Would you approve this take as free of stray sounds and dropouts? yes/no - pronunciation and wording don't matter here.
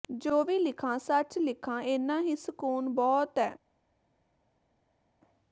yes